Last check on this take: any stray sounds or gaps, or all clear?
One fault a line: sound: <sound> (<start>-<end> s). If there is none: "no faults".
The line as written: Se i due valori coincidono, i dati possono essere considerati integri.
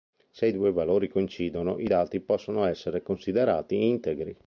no faults